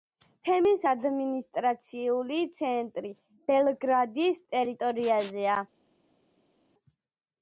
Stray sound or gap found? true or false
false